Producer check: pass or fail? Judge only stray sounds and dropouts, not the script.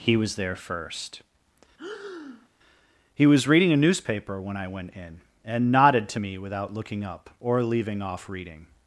fail